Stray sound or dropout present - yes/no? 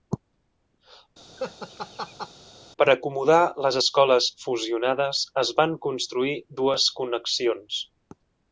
yes